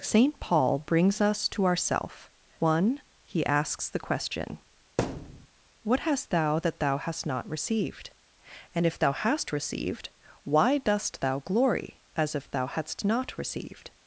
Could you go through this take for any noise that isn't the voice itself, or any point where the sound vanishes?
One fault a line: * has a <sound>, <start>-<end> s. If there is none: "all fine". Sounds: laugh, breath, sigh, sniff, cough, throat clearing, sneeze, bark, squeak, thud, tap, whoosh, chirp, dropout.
* has a thud, 5.0-5.5 s